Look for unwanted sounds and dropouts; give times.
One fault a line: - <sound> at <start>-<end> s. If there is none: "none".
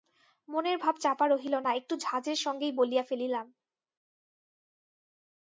none